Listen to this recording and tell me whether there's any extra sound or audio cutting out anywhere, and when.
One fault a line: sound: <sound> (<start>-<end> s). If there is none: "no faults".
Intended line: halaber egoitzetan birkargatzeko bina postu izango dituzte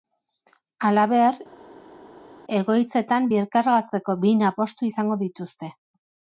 no faults